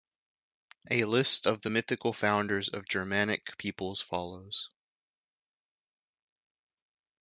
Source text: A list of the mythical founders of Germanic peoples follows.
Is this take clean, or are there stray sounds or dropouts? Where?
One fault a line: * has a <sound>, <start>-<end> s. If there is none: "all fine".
all fine